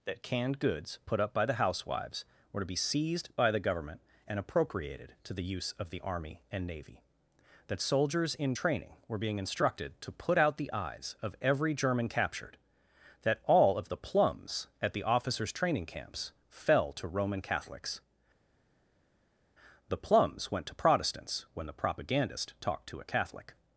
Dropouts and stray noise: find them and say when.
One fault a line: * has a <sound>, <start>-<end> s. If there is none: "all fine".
all fine